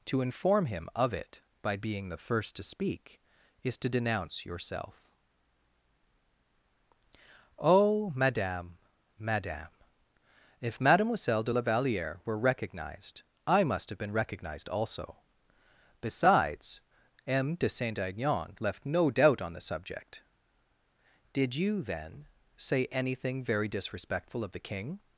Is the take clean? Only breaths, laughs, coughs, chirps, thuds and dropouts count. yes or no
yes